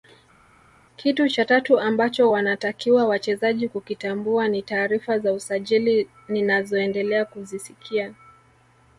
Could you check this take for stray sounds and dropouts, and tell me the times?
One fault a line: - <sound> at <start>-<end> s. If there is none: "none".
none